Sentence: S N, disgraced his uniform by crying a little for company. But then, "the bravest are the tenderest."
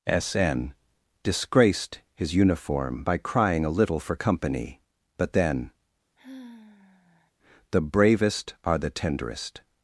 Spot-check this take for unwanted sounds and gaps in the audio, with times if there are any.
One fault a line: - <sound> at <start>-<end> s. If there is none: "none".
- sigh at 6.2-7.3 s